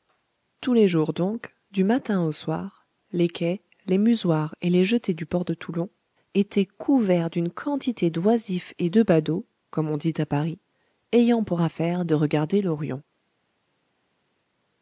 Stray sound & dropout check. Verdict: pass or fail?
pass